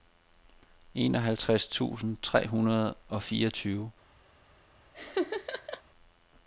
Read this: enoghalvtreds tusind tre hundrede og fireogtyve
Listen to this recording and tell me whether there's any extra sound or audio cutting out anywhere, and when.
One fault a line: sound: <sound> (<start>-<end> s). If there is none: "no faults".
sound: laugh (4.9-5.8 s)